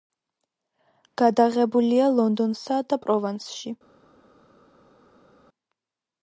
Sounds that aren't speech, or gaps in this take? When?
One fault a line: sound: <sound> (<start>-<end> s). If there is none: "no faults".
no faults